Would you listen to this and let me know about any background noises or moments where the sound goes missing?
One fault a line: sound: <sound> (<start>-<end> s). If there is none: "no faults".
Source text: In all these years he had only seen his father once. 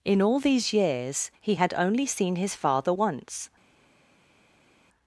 no faults